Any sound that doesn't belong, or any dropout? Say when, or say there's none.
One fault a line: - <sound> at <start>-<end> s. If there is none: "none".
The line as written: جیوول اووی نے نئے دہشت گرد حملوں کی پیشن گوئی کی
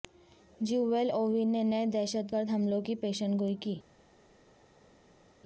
none